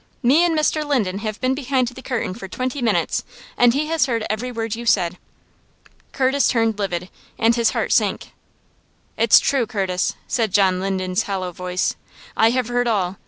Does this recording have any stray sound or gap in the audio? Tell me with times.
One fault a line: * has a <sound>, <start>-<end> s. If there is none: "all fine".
all fine